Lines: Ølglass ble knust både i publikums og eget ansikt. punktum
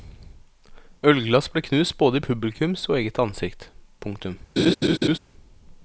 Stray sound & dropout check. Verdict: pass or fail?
fail